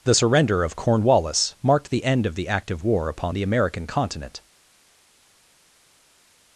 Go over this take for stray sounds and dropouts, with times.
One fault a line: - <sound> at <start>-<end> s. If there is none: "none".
none